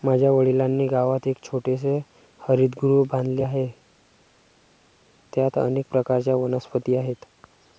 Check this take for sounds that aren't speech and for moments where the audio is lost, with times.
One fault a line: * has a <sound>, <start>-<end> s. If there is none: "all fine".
all fine